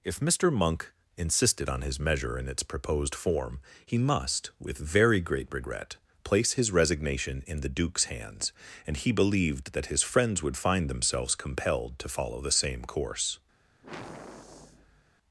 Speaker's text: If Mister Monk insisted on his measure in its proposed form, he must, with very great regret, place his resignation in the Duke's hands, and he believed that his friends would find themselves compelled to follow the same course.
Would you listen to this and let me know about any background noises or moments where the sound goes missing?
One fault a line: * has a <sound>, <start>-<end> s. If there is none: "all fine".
* has a sigh, 13.8-15.0 s